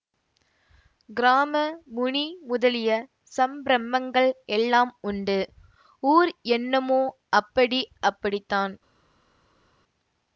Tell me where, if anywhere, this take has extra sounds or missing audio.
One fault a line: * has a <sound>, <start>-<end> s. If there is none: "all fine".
all fine